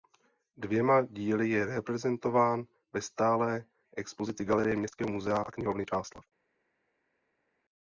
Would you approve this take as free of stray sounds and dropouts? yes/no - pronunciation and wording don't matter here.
yes